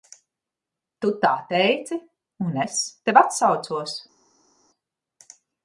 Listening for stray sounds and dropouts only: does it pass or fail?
pass